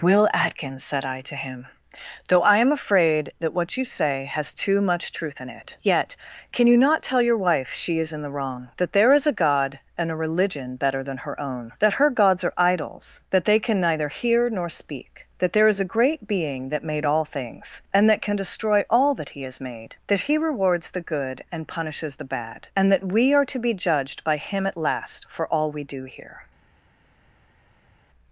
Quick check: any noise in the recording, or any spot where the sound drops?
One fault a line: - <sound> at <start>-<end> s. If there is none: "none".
none